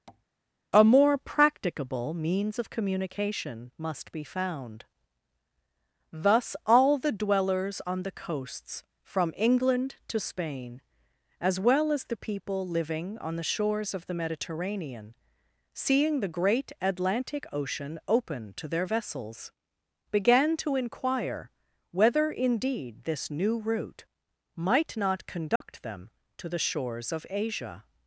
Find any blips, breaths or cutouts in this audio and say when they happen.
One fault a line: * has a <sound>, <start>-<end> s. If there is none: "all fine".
* has a tap, 0.1-0.3 s
* has a dropout, 25.6-25.6 s